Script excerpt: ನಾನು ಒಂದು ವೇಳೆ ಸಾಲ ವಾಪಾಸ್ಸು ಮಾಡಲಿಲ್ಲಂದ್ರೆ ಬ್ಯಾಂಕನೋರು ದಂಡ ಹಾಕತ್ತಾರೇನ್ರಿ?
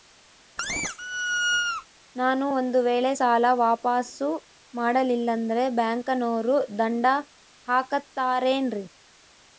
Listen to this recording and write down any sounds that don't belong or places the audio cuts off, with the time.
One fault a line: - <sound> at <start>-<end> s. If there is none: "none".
- squeak at 0.6-1.9 s